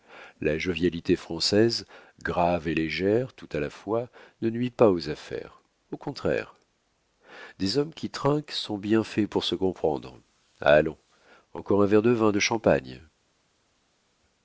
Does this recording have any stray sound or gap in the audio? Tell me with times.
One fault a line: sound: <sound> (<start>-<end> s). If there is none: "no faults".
no faults